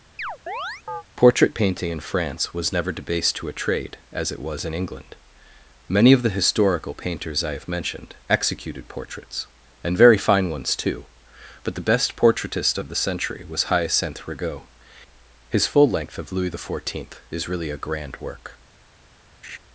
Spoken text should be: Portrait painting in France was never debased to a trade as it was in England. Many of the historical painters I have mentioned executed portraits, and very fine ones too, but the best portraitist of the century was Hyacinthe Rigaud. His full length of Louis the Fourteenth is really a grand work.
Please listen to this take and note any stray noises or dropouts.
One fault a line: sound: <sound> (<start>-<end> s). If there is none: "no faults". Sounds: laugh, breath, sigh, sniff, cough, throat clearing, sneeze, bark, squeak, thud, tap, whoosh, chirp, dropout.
sound: chirp (0.2-1.0 s)
sound: laugh (19.4-19.6 s)